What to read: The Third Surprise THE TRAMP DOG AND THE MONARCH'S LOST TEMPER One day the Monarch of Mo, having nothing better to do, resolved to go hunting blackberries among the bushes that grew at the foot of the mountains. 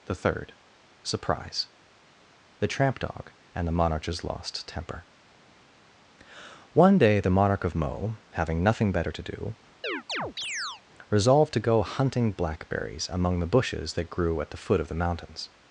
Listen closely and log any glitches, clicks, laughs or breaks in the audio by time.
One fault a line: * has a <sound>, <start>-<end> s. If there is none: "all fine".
* has a chirp, 9.8-10.8 s